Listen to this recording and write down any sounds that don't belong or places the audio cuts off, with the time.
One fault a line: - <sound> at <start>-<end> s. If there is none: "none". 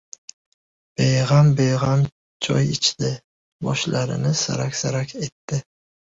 none